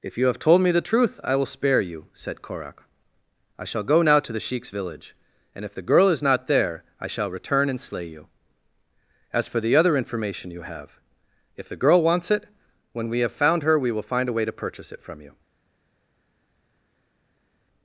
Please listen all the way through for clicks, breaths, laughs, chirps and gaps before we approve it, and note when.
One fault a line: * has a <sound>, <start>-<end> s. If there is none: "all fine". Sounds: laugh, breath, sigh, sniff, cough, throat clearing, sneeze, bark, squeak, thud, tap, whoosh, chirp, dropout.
all fine